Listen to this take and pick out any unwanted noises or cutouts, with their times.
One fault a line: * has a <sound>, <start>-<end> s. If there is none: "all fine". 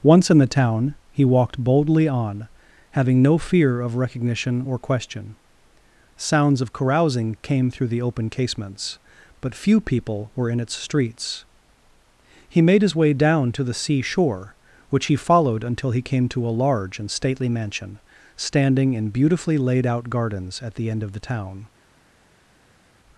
all fine